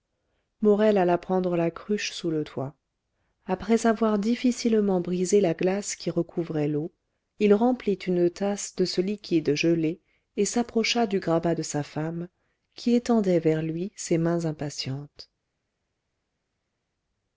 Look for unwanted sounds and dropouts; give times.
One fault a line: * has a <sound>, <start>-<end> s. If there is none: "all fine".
all fine